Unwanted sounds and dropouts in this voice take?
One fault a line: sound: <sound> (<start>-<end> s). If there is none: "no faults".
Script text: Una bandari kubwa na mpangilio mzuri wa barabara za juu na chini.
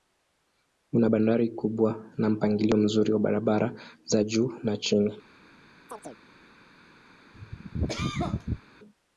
sound: chirp (5.9-6.2 s)
sound: cough (7.3-8.6 s)